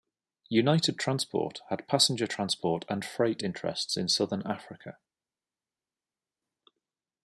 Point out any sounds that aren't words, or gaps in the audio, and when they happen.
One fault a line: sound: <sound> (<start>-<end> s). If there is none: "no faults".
no faults